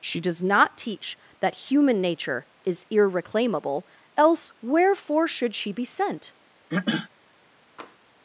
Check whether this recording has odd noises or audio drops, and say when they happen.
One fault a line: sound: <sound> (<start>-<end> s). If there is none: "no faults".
sound: throat clearing (6.7-7.1 s)
sound: tap (7.8-8.0 s)